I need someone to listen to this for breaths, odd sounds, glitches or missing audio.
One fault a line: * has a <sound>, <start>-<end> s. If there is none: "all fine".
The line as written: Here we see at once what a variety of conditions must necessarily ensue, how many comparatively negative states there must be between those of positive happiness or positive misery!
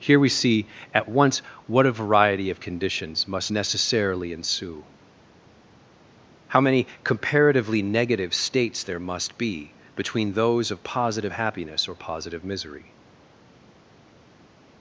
all fine